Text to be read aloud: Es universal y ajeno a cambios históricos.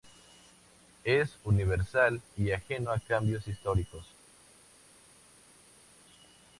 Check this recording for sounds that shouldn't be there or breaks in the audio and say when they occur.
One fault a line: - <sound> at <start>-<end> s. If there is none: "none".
none